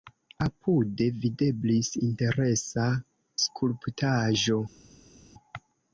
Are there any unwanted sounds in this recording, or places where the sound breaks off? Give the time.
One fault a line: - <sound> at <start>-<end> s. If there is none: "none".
none